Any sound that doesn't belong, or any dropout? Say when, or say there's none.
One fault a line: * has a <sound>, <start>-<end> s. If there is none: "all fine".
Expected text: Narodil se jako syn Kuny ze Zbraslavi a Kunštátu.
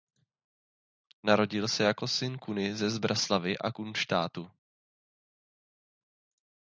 all fine